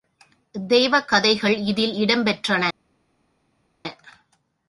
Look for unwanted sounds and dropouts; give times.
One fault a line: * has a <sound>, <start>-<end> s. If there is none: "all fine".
all fine